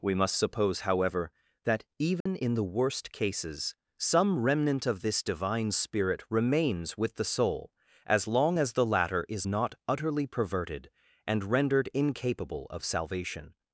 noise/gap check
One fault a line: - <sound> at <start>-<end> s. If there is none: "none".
- dropout at 2.2-2.3 s